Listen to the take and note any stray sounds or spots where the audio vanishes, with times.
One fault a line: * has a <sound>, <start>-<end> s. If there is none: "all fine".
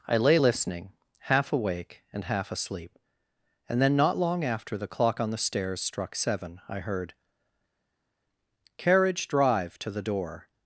all fine